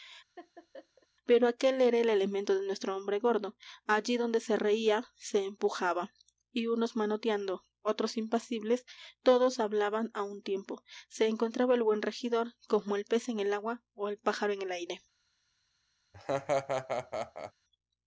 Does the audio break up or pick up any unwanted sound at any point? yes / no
yes